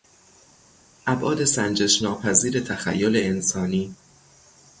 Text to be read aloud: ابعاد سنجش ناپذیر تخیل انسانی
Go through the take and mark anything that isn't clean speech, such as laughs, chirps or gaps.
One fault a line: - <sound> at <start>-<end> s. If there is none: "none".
none